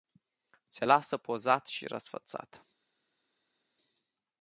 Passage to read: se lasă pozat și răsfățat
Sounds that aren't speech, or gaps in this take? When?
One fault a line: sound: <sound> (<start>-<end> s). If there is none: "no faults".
no faults